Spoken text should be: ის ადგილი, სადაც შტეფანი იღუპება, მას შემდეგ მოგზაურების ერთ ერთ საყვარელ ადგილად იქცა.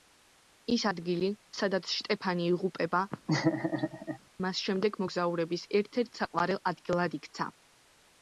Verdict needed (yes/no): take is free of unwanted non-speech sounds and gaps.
no